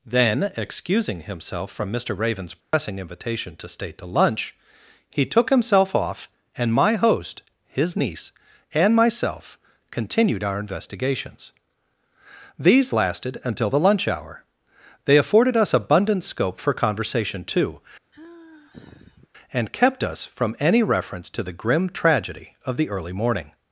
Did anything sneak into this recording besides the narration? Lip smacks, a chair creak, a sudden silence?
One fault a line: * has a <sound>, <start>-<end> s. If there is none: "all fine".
* has a dropout, 2.6-2.7 s
* has a sigh, 18.1-19.3 s